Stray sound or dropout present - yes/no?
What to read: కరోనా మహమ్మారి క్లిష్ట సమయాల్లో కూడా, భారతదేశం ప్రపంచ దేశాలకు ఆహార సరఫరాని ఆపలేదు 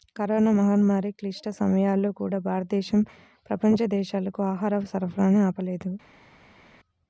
no